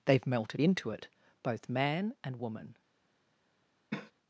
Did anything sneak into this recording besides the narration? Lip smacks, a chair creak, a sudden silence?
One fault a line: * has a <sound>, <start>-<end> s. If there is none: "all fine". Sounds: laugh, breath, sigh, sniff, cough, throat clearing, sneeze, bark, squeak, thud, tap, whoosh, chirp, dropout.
* has a cough, 3.9-4.1 s